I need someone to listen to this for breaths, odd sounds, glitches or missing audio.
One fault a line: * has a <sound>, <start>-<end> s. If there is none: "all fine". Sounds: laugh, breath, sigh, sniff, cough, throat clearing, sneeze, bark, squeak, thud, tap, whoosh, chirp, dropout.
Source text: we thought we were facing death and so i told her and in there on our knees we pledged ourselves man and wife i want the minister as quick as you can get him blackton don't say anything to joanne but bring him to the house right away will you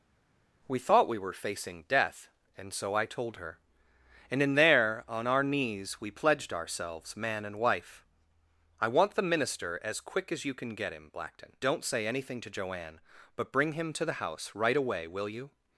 all fine